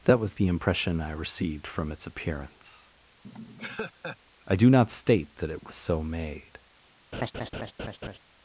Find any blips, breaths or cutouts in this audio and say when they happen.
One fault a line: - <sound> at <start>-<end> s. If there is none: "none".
- laugh at 3.2-4.2 s
- laugh at 7.1-8.2 s